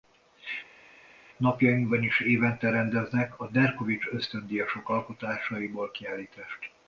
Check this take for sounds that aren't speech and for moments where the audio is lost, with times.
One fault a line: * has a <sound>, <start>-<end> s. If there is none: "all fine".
all fine